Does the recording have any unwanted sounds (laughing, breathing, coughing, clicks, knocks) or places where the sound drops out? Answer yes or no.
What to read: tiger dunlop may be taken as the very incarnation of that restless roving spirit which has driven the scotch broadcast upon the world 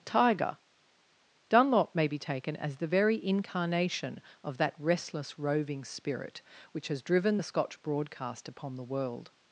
no